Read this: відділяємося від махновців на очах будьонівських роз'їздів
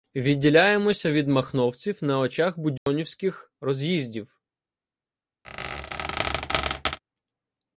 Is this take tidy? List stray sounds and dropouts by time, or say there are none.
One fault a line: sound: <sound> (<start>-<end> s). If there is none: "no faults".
sound: dropout (2.8-2.9 s)
sound: squeak (5.4-7.0 s)